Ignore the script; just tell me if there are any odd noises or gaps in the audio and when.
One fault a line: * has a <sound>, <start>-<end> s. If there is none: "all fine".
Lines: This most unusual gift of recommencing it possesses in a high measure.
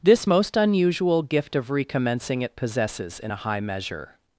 all fine